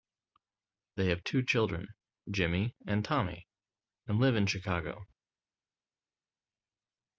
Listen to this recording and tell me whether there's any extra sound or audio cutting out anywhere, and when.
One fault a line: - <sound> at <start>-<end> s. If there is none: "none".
none